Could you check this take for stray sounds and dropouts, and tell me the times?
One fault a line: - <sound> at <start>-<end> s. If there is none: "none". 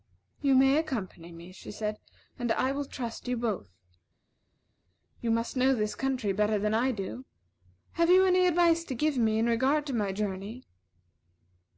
none